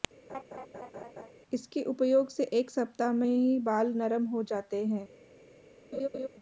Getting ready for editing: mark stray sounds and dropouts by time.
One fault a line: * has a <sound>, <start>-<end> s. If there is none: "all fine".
* has a laugh, 0.3-1.3 s
* has a laugh, 5.9-6.3 s